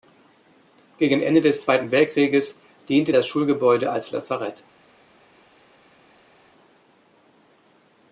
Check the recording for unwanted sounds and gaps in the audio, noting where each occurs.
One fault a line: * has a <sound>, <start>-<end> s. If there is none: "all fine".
all fine